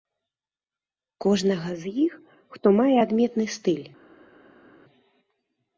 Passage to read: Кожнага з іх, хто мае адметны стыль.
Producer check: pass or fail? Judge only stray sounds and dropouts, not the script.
pass